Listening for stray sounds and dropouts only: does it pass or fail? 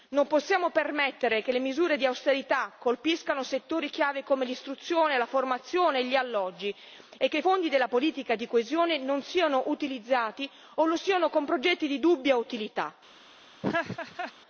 fail